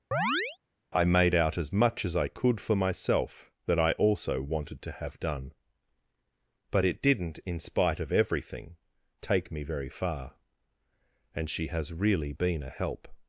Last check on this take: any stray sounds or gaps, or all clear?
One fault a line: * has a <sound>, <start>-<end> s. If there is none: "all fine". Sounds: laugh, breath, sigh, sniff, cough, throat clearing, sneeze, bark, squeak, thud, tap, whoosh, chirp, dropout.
* has a chirp, 0.1-0.6 s